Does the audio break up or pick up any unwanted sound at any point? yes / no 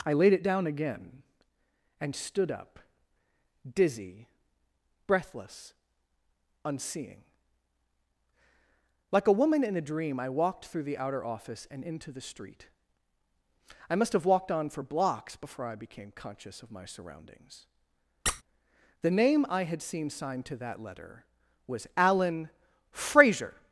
yes